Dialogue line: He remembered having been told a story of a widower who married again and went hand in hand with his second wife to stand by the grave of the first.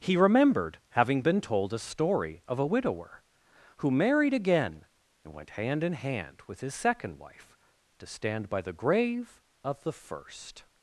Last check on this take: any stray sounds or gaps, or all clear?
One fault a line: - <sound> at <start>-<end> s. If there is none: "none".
none